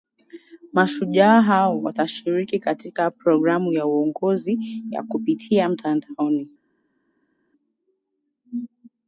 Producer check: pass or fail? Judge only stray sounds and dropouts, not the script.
pass